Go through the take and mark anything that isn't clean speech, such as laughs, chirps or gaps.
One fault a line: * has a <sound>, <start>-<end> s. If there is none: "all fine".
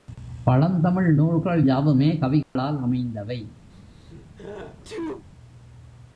* has a dropout, 2.4-2.6 s
* has a sneeze, 3.7-5.2 s